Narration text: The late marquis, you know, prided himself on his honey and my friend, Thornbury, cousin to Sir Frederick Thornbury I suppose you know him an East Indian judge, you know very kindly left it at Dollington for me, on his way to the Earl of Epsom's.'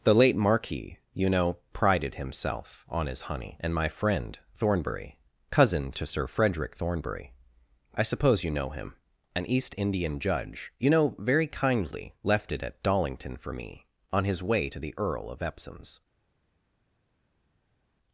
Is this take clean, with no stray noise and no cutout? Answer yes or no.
yes